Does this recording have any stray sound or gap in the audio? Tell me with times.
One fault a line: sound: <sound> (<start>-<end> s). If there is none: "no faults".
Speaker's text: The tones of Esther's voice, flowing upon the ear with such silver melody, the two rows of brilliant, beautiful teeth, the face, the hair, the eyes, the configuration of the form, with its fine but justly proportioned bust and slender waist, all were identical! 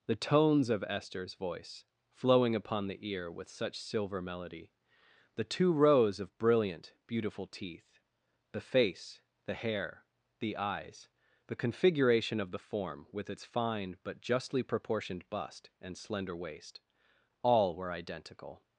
no faults